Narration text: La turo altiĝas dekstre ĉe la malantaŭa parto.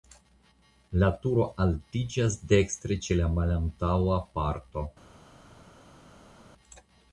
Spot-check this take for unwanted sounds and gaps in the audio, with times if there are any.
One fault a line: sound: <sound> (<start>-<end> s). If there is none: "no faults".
no faults